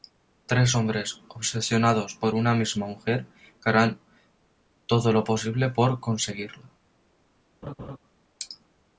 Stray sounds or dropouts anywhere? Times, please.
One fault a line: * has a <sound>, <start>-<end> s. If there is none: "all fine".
* has a laugh, 7.6-8.0 s